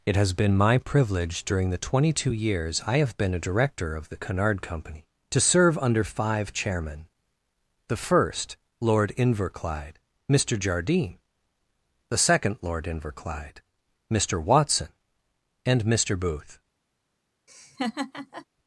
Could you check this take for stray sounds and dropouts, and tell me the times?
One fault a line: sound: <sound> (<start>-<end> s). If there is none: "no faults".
sound: laugh (17.5-18.5 s)